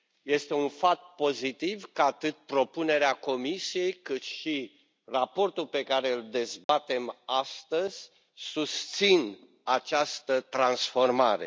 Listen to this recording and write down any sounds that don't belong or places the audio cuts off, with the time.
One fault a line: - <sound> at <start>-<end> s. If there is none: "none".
- dropout at 6.6-6.7 s